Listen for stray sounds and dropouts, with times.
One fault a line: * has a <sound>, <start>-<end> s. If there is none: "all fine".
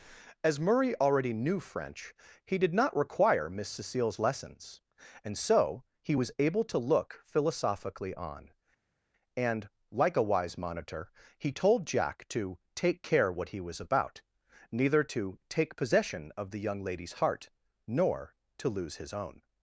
all fine